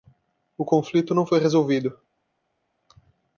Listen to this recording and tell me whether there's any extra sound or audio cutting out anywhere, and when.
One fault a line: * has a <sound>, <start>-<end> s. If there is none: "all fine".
all fine